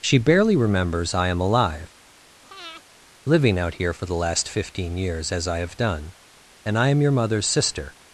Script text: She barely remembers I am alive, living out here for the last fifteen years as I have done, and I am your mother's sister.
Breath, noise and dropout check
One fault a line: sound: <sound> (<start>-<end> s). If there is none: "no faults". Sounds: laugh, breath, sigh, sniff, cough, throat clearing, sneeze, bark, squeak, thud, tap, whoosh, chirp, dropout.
sound: breath (2.4-2.8 s)